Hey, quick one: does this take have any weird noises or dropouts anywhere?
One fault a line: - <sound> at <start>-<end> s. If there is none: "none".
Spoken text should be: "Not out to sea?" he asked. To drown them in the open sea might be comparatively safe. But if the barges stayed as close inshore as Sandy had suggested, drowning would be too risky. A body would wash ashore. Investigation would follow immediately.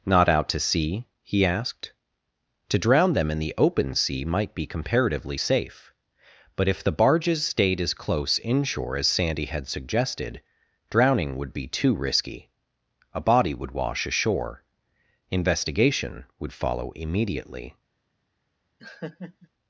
- laugh at 18.8-19.5 s